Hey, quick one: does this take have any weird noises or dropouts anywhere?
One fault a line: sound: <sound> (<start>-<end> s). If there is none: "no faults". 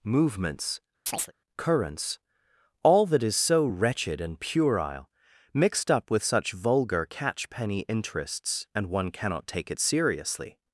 sound: chirp (1.1-1.3 s)